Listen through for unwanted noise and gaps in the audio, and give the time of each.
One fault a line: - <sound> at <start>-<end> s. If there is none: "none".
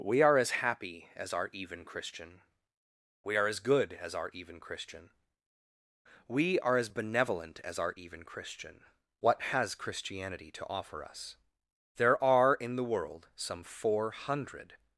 none